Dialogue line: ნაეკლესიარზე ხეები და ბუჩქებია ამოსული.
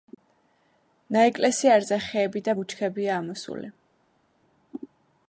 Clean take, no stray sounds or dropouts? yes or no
yes